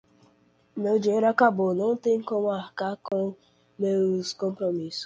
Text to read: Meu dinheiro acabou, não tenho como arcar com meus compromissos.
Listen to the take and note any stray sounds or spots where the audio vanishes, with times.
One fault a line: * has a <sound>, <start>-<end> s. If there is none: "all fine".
* has a dropout, 3.1-3.1 s